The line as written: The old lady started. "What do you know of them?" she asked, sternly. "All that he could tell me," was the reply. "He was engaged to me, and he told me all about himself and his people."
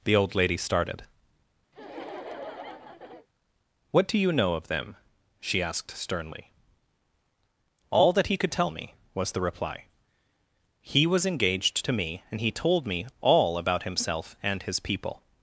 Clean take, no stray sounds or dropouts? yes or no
no